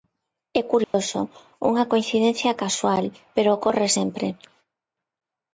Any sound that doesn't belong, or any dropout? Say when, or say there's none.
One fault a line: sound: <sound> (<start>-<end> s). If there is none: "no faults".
sound: dropout (0.8-0.9 s)